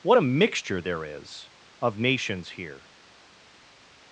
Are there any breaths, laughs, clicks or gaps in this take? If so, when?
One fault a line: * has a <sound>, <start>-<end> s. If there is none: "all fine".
all fine